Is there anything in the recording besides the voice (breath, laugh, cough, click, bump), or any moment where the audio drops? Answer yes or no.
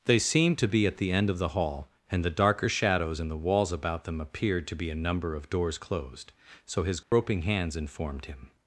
yes